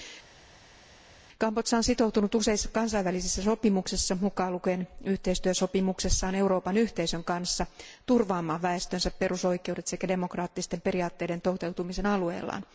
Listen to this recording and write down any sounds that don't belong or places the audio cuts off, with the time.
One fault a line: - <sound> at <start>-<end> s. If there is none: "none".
none